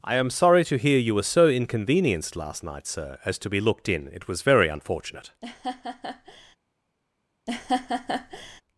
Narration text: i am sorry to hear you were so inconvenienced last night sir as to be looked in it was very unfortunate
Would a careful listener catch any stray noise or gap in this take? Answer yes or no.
yes